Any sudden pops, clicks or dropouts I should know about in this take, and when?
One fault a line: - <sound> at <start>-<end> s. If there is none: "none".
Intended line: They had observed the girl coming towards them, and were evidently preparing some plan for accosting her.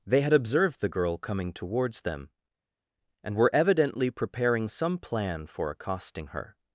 none